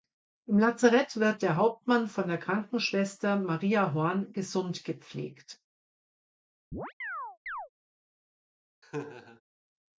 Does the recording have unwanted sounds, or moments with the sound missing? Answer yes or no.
yes